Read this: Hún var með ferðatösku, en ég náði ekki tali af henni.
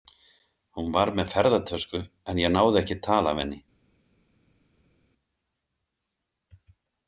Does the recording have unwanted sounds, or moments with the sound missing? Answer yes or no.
no